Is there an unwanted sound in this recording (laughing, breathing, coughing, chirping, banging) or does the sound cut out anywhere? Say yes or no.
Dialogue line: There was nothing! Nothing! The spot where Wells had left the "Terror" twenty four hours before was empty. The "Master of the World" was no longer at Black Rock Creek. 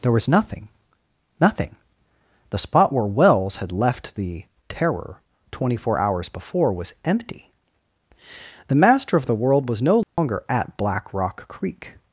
yes